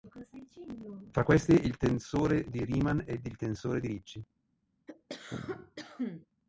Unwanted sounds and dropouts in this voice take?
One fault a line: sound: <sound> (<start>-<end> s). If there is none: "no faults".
sound: cough (4.9-6.3 s)